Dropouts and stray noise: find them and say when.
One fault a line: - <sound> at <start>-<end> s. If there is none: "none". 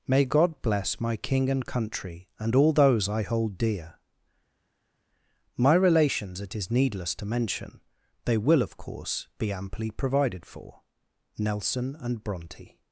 none